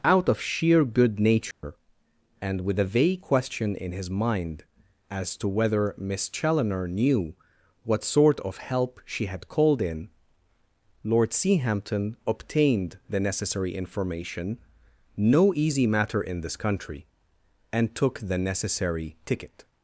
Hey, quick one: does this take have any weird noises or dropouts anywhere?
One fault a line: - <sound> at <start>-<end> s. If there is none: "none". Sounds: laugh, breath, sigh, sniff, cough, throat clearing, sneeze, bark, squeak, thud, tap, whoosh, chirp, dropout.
- dropout at 1.5-1.6 s